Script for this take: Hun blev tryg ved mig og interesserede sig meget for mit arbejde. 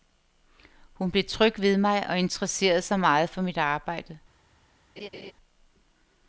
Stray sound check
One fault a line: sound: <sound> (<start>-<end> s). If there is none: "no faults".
sound: laugh (5.0-5.3 s)